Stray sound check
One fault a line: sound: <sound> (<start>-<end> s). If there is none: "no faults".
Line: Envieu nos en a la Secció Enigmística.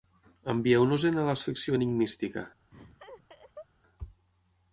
sound: laugh (2.7-3.7 s)